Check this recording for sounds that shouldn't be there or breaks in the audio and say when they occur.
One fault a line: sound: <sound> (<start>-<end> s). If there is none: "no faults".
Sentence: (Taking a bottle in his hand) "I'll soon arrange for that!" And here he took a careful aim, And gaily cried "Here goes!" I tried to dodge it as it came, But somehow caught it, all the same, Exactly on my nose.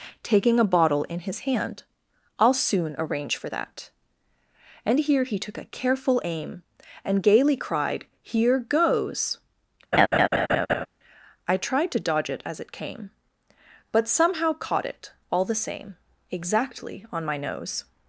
sound: laugh (9.9-10.9 s)